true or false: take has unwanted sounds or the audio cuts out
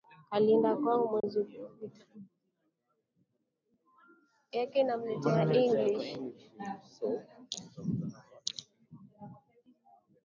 true